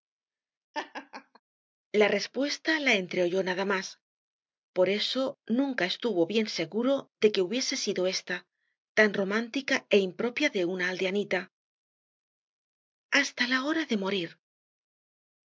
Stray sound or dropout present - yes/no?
yes